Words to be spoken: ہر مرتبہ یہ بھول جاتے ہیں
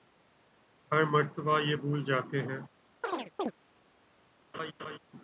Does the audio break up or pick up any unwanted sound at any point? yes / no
yes